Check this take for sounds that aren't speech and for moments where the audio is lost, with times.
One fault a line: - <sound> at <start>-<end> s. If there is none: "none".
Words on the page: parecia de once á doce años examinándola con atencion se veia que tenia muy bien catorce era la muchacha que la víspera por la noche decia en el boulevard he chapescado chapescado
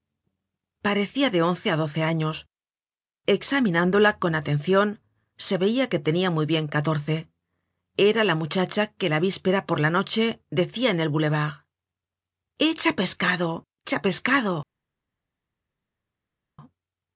none